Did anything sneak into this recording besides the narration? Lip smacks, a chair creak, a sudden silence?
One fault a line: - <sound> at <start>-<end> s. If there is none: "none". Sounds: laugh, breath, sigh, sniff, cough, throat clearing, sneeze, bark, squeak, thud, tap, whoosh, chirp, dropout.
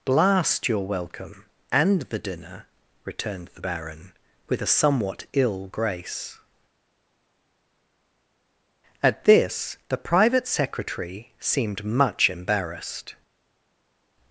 none